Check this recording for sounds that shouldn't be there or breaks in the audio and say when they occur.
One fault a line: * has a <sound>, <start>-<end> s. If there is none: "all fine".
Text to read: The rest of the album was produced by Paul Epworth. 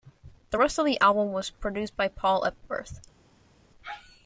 all fine